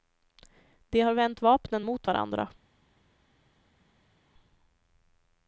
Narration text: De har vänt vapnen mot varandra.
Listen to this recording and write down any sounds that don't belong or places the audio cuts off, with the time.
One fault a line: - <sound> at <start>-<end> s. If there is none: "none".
none